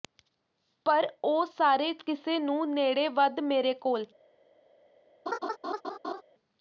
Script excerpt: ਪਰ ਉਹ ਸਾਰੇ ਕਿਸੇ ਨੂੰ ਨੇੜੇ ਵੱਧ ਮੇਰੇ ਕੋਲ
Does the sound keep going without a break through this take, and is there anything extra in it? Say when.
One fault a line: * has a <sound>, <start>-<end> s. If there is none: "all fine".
* has a laugh, 5.3-6.2 s